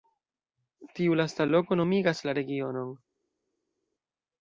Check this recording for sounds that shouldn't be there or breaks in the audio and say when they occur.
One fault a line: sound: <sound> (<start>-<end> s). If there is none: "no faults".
no faults